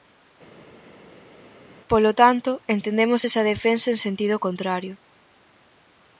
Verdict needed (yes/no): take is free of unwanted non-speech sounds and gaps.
yes